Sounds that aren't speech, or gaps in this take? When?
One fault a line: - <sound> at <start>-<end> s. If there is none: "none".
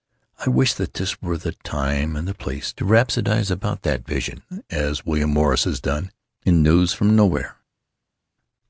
none